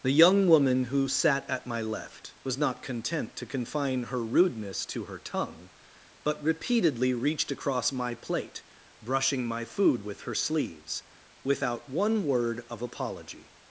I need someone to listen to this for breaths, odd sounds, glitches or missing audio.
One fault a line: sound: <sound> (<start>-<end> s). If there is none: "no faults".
no faults